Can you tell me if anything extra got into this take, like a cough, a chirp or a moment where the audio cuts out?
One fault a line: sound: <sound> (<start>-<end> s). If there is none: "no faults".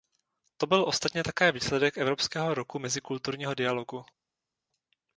no faults